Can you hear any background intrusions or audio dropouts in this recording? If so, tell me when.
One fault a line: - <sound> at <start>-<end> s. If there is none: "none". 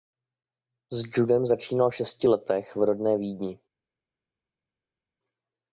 none